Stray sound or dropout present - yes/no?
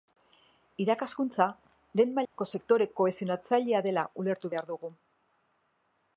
yes